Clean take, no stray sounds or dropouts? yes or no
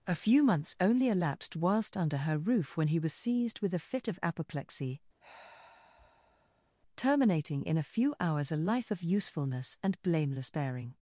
no